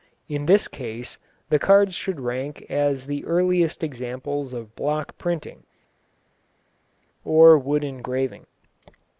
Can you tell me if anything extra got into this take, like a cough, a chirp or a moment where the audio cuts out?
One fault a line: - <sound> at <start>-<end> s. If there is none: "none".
none